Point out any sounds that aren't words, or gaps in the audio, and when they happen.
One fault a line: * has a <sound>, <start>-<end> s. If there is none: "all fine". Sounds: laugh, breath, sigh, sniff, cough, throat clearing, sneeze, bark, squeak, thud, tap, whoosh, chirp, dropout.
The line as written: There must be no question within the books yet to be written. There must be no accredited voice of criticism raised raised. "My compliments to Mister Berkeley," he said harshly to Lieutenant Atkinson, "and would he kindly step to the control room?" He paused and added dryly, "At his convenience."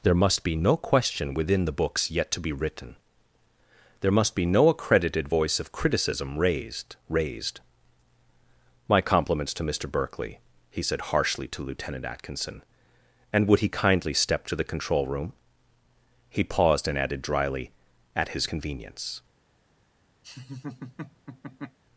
* has a laugh, 20.2-21.8 s